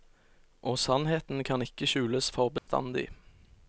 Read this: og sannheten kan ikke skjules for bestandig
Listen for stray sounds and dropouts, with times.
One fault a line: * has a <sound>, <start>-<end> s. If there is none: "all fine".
* has a dropout, 2.6-2.7 s